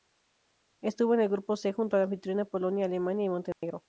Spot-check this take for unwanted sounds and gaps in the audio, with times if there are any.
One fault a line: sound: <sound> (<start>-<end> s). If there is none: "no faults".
sound: dropout (3.5-3.6 s)